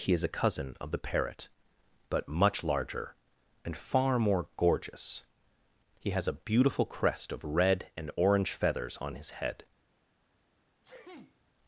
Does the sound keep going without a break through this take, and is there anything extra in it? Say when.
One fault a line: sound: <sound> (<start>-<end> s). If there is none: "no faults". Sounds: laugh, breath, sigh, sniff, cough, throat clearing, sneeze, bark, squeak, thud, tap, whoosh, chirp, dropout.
sound: sneeze (10.8-11.4 s)